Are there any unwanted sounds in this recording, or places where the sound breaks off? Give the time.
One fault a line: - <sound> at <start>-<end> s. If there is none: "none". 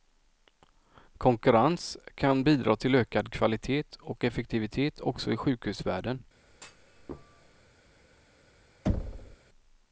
- thud at 6.5-7.7 s
- thud at 8.9-9.4 s